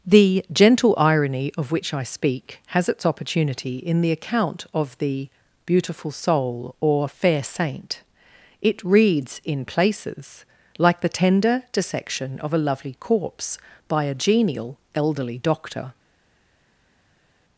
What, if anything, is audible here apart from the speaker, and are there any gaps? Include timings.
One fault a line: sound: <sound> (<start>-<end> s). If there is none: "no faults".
no faults